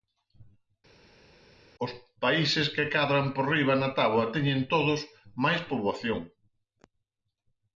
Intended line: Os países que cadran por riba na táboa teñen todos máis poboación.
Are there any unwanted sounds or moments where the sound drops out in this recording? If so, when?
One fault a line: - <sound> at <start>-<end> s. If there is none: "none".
none